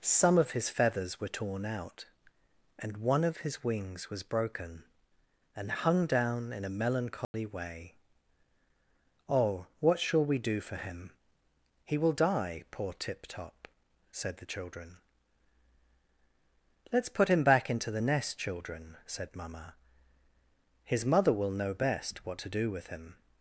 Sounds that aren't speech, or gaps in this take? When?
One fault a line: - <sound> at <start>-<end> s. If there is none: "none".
- dropout at 7.2-7.3 s